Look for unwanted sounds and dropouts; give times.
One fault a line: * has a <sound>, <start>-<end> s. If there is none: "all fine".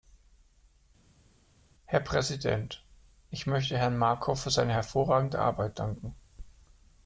all fine